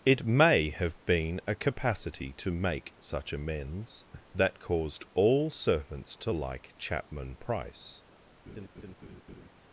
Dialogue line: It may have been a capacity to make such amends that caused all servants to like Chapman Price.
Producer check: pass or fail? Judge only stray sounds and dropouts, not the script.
fail